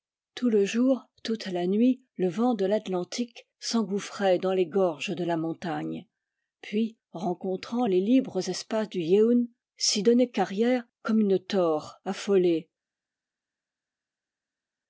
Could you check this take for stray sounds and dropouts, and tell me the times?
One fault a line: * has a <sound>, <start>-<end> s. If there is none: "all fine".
all fine